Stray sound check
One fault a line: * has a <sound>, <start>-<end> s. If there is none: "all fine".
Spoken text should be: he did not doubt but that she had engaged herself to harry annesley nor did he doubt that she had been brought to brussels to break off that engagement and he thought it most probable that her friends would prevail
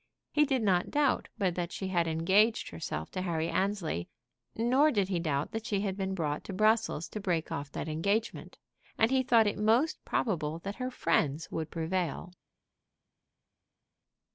all fine